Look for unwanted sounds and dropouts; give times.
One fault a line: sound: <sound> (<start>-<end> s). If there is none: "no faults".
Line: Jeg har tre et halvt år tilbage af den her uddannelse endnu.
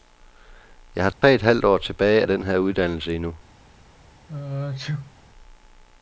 sound: dropout (1.1-1.2 s)
sound: sneeze (4.3-5.1 s)